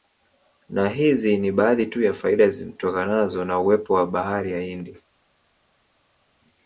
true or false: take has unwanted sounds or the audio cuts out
false